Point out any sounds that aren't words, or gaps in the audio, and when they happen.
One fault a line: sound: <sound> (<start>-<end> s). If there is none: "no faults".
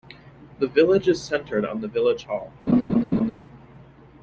sound: laugh (2.7-3.3 s)